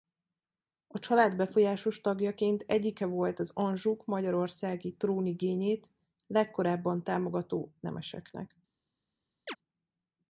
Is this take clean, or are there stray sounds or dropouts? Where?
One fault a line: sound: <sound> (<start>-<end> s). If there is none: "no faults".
sound: chirp (9.5-9.6 s)